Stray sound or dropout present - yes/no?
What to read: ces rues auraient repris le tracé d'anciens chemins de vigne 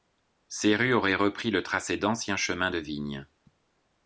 no